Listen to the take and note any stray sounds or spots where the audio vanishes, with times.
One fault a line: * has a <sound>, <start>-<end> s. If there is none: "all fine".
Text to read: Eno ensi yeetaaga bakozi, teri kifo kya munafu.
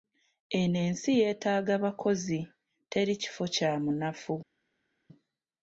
all fine